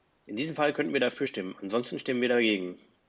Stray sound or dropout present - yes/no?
no